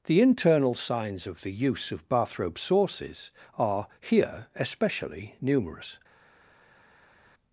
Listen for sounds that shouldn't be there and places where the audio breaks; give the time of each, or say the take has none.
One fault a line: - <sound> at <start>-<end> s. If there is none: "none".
none